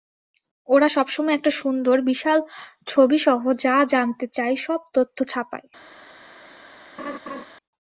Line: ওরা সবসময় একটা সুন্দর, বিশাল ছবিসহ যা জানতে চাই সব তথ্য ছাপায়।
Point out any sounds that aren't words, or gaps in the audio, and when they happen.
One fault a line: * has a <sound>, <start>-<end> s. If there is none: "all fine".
* has a laugh, 7.0-7.4 s